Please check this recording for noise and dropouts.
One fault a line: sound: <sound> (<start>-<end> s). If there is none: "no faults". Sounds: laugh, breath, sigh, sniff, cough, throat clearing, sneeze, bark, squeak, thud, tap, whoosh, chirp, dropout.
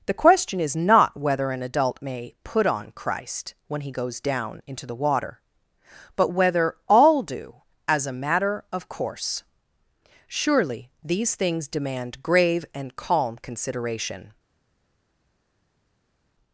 no faults